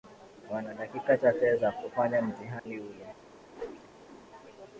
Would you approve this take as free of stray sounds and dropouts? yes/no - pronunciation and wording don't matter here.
no